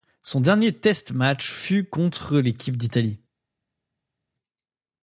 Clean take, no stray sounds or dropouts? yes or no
yes